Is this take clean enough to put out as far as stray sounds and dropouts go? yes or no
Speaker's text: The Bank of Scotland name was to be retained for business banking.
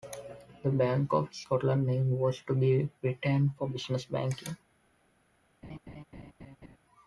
no